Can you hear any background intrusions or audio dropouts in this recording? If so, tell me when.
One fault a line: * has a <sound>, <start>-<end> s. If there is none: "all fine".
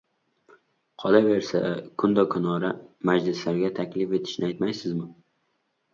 all fine